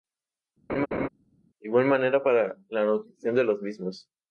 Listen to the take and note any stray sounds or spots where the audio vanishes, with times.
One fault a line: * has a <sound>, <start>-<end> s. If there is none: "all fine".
* has a laugh, 0.7-1.1 s